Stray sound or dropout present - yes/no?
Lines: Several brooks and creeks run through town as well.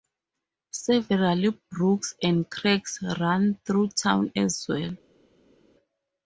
no